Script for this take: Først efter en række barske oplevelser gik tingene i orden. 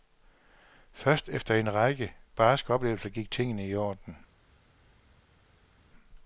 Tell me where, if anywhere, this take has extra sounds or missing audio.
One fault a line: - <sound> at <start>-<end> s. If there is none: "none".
none